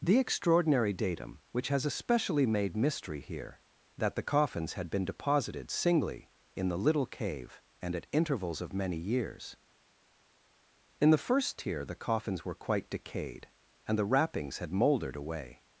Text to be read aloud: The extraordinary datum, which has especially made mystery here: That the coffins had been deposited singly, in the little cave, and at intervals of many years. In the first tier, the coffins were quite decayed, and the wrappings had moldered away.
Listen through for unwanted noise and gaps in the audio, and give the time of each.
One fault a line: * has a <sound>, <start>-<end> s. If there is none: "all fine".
all fine